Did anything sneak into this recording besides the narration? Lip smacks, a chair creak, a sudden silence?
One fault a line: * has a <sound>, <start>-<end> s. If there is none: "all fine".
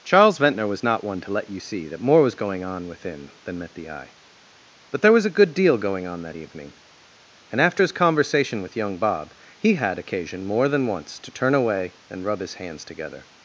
all fine